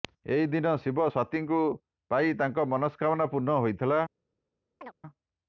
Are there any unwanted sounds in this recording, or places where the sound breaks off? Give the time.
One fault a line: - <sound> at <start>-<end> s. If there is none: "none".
- chirp at 4.8-4.9 s